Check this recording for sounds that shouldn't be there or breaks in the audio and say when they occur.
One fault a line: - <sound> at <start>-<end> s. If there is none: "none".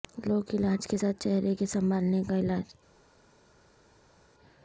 none